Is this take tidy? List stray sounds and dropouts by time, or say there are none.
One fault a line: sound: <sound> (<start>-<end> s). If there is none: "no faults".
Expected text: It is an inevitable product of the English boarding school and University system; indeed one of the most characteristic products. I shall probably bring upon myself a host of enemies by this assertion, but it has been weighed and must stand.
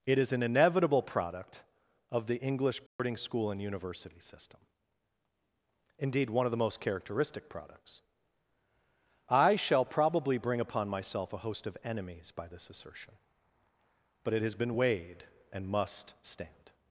sound: dropout (2.9-3.0 s)